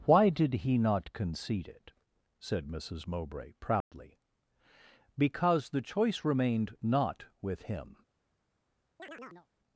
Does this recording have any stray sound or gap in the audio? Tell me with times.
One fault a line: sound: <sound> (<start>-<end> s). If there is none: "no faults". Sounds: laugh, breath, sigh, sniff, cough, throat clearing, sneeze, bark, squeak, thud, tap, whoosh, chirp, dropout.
sound: dropout (3.8-3.9 s)
sound: chirp (9.0-9.5 s)